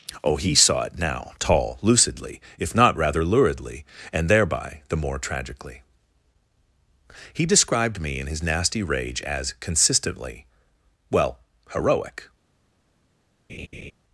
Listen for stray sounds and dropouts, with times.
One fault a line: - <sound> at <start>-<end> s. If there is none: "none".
- laugh at 13.5-13.9 s